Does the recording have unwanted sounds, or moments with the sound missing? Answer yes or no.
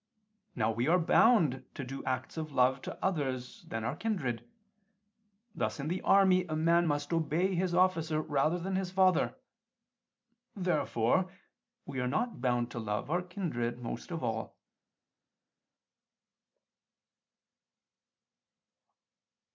no